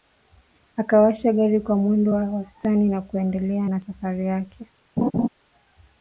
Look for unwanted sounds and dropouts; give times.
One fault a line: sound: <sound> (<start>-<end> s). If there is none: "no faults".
sound: laugh (5.0-5.3 s)